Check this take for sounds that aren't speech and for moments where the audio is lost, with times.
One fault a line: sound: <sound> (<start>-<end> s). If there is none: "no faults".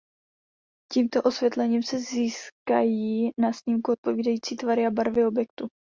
no faults